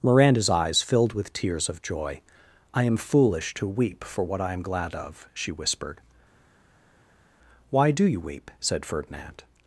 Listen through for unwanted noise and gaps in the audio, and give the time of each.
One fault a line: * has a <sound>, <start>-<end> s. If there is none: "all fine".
all fine